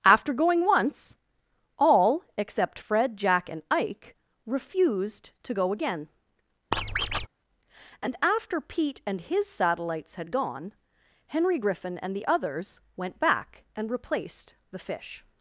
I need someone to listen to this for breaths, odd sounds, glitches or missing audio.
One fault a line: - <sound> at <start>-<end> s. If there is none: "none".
- squeak at 6.7-7.3 s